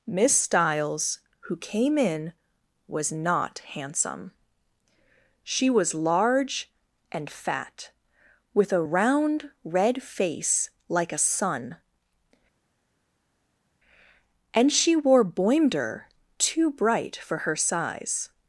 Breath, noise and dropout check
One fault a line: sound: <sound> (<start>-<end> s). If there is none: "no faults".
no faults